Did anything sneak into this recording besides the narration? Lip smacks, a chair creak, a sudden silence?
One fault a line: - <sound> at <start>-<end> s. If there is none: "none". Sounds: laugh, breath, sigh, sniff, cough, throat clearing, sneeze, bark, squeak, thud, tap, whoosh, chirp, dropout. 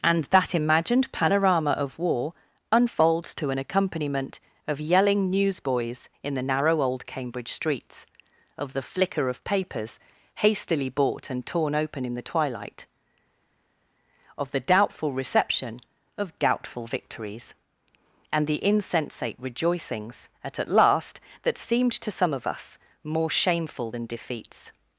none